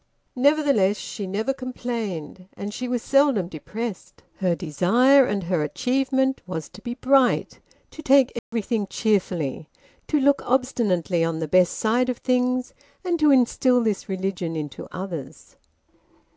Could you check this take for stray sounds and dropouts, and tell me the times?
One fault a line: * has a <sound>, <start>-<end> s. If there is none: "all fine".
* has a dropout, 8.4-8.5 s